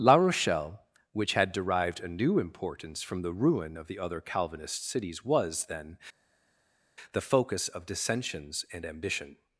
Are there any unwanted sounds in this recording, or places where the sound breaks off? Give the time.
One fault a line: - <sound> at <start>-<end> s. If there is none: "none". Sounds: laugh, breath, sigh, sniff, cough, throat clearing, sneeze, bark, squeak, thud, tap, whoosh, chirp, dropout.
none